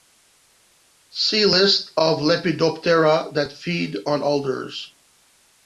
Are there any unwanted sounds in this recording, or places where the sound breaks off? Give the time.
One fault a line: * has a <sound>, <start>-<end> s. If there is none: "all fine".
all fine